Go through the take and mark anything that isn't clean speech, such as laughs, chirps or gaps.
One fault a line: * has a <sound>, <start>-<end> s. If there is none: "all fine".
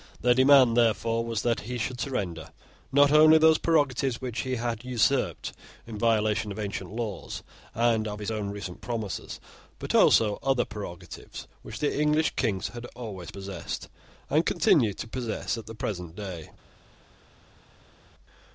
all fine